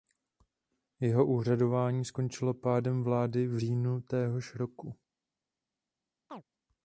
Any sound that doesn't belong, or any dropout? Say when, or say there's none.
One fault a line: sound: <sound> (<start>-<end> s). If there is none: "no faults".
sound: chirp (6.3-6.4 s)